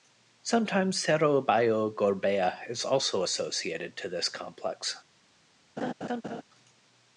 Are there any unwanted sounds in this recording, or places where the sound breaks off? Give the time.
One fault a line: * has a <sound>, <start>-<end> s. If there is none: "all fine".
* has a laugh, 5.8-6.4 s